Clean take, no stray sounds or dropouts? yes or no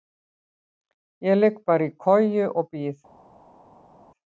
yes